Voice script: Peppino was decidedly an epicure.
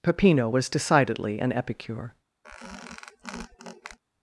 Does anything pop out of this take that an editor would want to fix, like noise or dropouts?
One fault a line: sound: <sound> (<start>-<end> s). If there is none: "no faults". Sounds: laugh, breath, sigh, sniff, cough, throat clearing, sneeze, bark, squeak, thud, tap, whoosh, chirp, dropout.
sound: squeak (2.4-4.0 s)